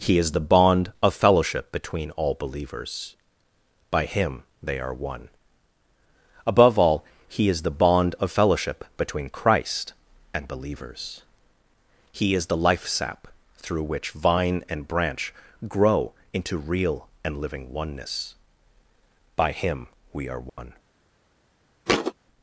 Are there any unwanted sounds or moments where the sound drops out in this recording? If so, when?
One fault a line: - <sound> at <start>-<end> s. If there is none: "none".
- dropout at 20.5-20.6 s
- thud at 21.9-22.1 s